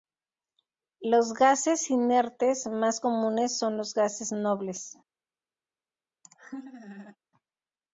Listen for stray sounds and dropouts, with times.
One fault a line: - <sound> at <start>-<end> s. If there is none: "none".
- laugh at 6.2-7.2 s